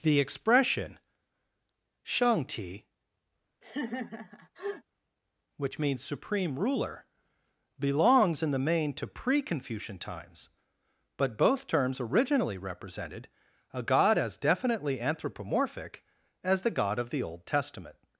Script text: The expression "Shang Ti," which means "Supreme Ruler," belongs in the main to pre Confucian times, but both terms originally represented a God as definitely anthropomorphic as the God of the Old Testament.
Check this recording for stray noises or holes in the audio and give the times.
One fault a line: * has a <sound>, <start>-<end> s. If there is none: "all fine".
* has a laugh, 3.6-4.8 s